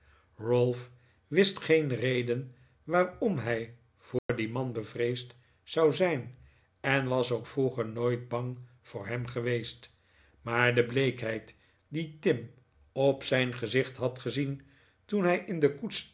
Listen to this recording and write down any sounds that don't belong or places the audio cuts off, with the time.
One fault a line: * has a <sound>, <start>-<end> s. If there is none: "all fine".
* has a dropout, 4.2-4.3 s